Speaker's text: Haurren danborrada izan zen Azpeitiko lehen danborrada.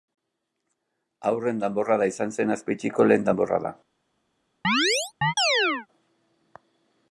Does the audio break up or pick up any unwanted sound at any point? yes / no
yes